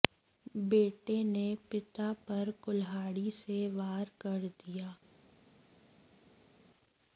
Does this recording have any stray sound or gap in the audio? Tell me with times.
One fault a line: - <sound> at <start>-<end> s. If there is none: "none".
none